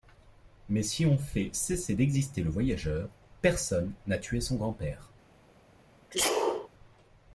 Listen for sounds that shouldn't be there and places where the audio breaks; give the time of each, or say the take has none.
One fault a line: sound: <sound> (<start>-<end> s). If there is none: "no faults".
sound: sneeze (6.1-6.7 s)